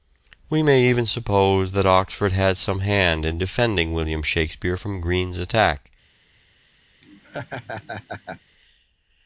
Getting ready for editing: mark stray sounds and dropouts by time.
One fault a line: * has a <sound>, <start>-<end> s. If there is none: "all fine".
* has a laugh, 7.0-8.4 s